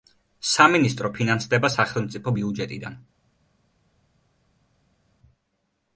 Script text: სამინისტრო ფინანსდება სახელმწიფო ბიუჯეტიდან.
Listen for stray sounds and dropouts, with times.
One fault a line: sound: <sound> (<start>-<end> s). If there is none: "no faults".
no faults